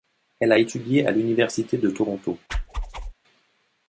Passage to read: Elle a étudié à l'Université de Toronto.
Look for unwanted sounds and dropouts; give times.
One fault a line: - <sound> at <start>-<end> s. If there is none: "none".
- whoosh at 2.5-3.1 s